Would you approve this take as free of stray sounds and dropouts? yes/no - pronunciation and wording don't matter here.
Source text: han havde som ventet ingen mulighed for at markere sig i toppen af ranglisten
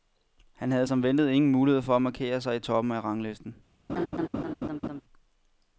no